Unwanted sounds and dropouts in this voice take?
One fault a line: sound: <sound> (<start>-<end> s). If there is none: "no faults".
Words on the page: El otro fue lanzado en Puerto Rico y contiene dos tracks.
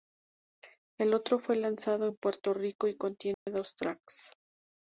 sound: dropout (3.3-3.5 s)